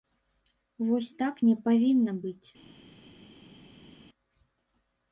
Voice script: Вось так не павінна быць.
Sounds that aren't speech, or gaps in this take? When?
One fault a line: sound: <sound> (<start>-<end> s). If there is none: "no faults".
no faults